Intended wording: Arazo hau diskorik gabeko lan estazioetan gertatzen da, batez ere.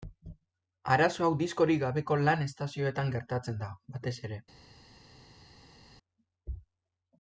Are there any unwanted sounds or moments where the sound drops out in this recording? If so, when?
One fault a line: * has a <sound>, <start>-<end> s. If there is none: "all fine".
all fine